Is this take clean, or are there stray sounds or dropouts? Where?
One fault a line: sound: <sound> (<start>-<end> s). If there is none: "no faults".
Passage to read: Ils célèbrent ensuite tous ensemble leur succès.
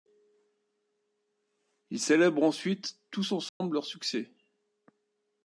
sound: dropout (3.5-3.6 s)